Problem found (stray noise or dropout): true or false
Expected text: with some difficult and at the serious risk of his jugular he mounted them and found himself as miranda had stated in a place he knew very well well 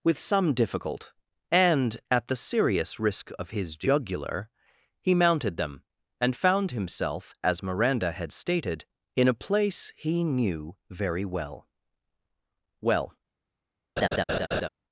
true